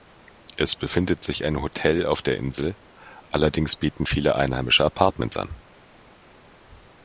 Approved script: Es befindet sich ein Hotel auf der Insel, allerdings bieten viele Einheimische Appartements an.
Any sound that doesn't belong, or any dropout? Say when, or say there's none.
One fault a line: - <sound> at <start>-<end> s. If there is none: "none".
none